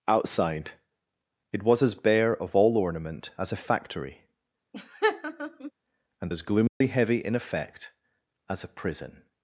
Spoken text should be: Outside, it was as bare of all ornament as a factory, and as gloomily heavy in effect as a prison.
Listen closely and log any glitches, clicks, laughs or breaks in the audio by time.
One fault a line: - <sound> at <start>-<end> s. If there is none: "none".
- laugh at 4.7-5.7 s
- dropout at 6.7-6.8 s